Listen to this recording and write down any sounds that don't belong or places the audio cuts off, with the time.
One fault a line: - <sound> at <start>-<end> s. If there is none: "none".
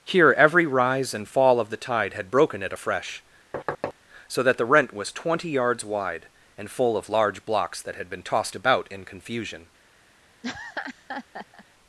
- thud at 3.5-3.9 s
- laugh at 10.4-11.7 s